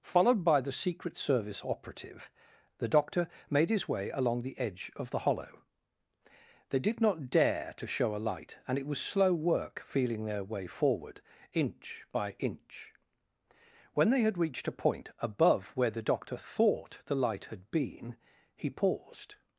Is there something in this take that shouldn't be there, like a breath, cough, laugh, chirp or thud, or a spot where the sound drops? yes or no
no